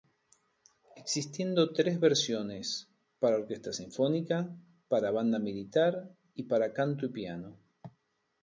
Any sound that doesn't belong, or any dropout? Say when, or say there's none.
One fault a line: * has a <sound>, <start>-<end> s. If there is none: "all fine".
all fine